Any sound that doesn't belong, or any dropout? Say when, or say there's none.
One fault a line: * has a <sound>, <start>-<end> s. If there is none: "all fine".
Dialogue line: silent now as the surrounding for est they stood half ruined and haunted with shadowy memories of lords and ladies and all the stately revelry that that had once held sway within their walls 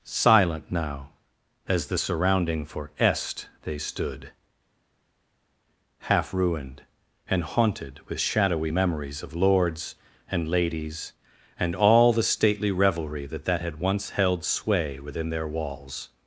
all fine